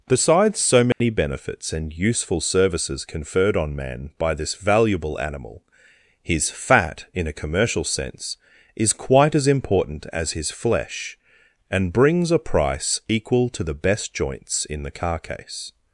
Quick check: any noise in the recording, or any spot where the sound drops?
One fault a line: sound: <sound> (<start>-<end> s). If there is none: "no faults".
sound: dropout (0.9-1.0 s)